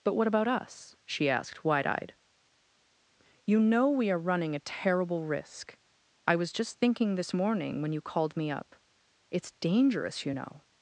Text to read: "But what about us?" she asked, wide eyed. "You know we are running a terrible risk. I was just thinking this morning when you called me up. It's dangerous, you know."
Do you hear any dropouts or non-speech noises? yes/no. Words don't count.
no